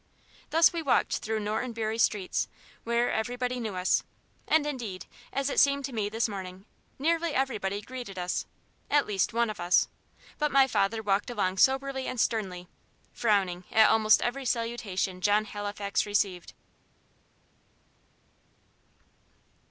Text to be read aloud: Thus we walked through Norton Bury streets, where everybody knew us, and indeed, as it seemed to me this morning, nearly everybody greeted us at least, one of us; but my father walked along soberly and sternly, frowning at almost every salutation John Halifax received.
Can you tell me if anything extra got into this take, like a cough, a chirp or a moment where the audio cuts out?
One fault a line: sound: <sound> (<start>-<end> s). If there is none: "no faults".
no faults